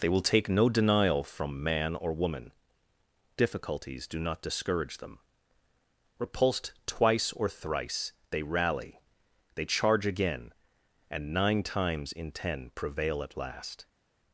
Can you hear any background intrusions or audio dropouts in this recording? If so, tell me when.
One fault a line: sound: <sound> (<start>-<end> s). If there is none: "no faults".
no faults